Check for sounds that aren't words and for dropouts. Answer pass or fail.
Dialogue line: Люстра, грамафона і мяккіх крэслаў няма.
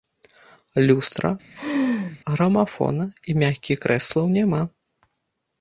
fail